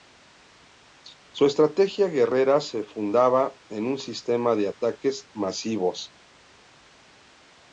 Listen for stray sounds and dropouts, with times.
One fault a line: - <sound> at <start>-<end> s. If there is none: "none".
none